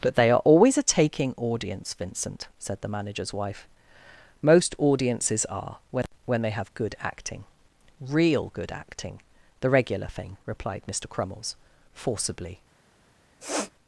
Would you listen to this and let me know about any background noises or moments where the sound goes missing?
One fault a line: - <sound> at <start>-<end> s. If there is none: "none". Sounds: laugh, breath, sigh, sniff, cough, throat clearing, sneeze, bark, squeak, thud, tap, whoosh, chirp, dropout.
- sniff at 13.4-13.7 s